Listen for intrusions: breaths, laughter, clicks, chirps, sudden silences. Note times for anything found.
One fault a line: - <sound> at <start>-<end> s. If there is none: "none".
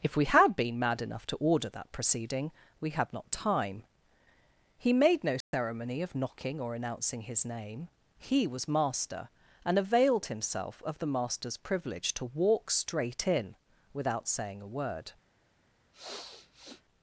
- dropout at 5.4-5.5 s
- sniff at 15.9-16.8 s